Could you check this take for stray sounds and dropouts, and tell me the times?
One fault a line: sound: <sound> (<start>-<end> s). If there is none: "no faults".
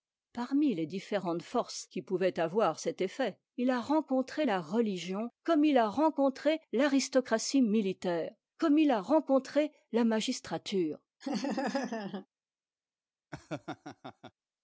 sound: laugh (11.2-12.3 s)
sound: laugh (13.3-14.3 s)